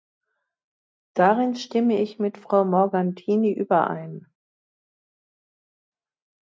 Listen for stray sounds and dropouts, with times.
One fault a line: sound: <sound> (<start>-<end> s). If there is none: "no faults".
no faults